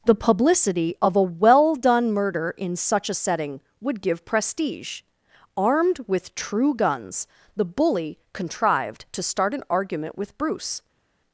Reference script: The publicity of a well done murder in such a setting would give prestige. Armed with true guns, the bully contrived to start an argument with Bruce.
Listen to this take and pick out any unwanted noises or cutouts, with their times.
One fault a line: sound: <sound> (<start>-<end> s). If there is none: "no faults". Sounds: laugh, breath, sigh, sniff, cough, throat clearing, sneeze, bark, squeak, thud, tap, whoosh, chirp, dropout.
no faults